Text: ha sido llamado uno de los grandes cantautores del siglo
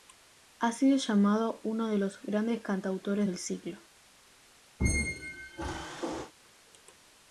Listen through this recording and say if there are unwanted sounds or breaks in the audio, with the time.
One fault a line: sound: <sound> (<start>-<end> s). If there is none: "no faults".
sound: squeak (4.8-6.3 s)